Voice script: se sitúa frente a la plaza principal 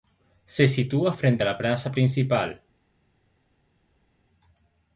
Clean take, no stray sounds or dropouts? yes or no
yes